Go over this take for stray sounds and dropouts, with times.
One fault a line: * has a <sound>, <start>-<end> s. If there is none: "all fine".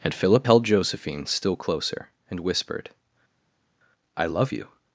all fine